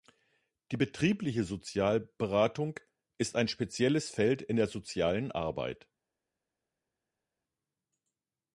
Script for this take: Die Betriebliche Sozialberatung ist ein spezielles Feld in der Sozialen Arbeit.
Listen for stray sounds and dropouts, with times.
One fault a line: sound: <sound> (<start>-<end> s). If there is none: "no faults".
no faults